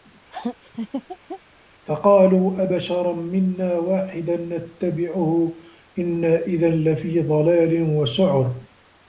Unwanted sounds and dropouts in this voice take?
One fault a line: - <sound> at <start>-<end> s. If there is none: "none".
- laugh at 0.3-1.4 s